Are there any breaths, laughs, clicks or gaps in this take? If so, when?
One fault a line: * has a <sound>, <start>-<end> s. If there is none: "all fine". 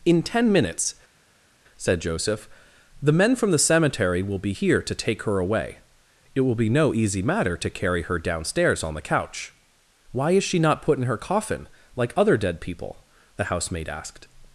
all fine